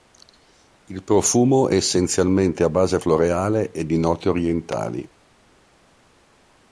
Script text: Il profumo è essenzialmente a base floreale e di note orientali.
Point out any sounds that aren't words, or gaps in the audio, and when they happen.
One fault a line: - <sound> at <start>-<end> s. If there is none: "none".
none